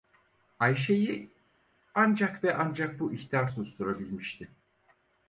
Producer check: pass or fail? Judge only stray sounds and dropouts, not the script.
pass